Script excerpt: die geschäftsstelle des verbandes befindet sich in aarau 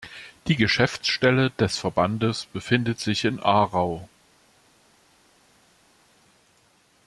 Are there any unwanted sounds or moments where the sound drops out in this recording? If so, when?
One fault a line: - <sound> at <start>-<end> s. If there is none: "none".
none